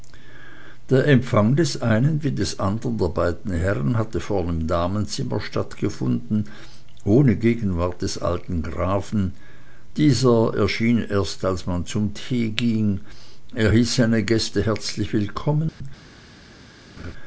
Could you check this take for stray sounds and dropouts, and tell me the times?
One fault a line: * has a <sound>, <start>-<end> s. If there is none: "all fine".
* has a dropout, 15.7-15.8 s
* has a laugh, 17.0-17.1 s